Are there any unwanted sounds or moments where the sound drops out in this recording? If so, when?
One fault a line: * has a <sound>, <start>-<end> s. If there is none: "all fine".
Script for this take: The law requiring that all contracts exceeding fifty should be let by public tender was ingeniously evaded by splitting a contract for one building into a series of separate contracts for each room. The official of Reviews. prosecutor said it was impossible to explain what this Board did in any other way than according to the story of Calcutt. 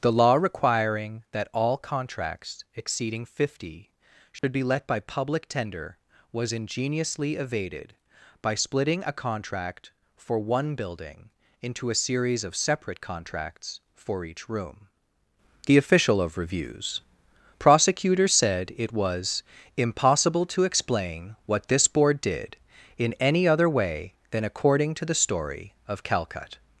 * has a dropout, 4.4-4.4 s